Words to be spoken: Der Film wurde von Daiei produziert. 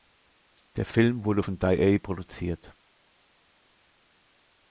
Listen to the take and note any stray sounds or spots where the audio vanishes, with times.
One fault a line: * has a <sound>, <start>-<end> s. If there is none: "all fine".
all fine